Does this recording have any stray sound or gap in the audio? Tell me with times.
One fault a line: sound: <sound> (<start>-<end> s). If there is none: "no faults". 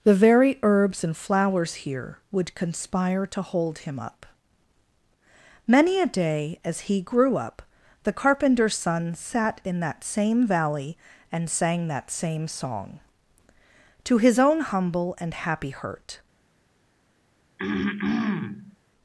sound: throat clearing (17.6-18.8 s)